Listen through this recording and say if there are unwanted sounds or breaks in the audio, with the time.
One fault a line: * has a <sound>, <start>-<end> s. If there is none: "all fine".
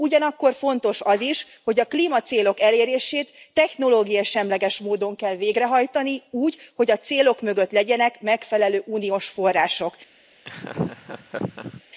* has a laugh, 10.4-11.8 s